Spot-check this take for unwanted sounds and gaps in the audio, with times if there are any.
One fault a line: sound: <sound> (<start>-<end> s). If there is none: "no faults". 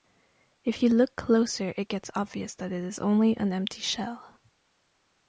no faults